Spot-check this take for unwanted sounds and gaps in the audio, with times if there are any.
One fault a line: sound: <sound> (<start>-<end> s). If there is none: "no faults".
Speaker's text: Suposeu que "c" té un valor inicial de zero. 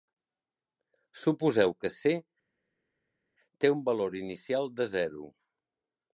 no faults